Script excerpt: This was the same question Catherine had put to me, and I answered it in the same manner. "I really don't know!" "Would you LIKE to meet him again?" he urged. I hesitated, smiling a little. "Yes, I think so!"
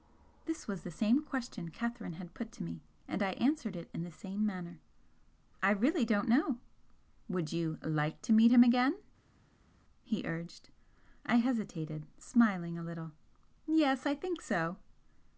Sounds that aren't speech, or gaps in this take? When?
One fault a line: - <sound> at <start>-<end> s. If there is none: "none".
none